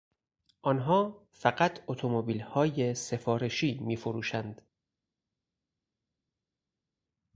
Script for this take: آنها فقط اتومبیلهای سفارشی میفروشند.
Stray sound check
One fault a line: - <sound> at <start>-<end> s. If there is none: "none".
none